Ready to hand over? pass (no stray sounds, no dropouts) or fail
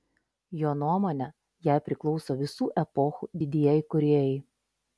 pass